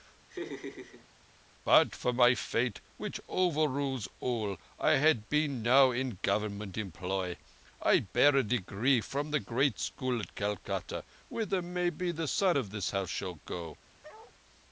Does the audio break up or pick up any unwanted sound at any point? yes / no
yes